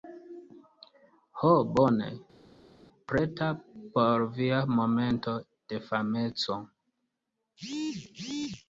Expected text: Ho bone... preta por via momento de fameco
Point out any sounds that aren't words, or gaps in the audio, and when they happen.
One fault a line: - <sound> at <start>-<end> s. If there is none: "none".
none